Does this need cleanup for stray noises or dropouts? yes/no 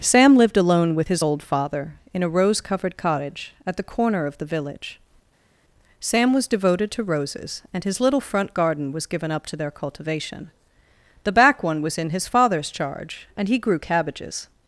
no